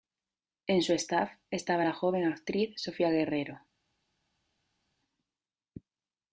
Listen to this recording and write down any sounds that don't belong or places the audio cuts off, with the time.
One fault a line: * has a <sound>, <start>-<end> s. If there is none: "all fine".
all fine